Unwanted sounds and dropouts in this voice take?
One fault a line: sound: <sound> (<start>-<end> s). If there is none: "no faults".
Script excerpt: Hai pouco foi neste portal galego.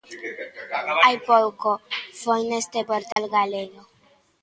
sound: dropout (3.1-3.2 s)